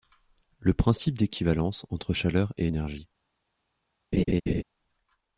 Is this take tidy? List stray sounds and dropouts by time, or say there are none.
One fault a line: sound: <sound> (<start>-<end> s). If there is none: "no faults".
sound: laugh (4.1-4.6 s)